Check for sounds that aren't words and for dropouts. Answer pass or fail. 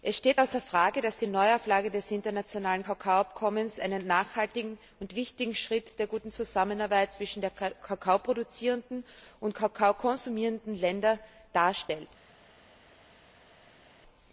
pass